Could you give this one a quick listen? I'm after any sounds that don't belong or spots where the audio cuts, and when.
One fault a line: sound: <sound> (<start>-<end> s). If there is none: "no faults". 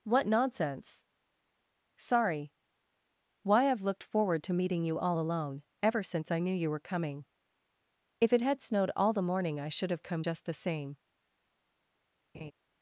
sound: laugh (12.3-12.5 s)